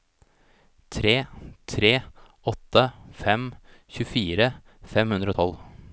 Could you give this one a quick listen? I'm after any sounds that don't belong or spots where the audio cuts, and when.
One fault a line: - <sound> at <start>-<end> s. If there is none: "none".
none